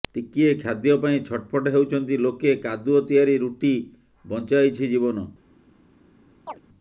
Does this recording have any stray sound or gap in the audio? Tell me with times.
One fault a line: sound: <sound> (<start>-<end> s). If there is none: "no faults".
sound: chirp (6.5-6.6 s)